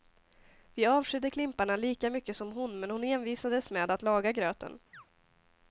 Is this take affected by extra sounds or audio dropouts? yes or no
yes